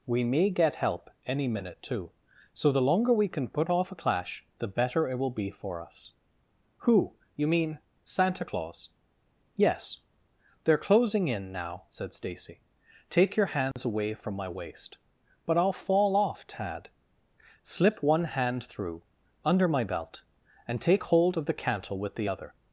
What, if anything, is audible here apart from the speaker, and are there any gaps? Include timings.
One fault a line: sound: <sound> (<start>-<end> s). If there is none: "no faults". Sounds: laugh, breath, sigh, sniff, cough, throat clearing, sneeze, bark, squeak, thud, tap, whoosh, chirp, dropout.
sound: dropout (13.7-13.8 s)